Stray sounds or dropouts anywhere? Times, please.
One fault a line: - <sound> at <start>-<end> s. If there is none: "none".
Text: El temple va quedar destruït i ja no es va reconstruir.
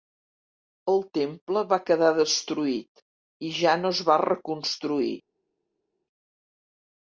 none